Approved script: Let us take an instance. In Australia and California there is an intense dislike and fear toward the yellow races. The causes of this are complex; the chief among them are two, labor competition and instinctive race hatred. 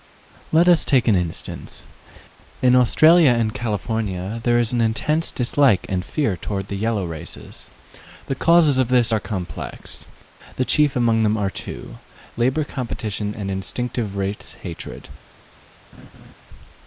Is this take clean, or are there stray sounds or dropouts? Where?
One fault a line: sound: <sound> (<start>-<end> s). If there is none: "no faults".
sound: laugh (15.9-16.3 s)